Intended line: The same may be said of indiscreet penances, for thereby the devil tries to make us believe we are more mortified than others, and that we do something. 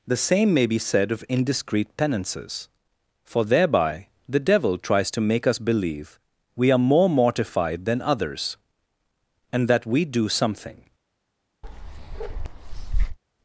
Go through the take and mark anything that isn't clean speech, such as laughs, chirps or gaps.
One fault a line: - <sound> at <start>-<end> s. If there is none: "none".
- bark at 11.6-13.2 s